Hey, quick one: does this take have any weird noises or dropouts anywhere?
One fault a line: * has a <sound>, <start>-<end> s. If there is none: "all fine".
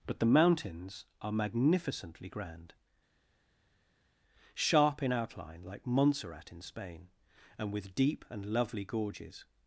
all fine